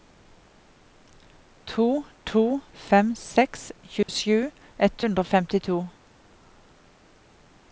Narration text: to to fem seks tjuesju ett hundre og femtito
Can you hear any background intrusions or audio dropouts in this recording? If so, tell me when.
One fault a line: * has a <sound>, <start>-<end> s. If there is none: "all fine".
* has a dropout, 4.0-4.1 s